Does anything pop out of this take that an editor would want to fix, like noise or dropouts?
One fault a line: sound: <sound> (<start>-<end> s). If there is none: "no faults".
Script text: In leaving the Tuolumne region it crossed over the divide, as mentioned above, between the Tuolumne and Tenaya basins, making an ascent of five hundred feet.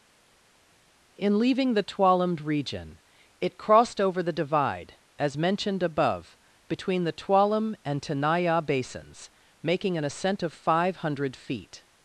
no faults